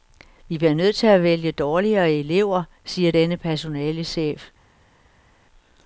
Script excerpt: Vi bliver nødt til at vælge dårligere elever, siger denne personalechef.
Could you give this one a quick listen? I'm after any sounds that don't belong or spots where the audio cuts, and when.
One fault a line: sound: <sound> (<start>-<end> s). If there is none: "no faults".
no faults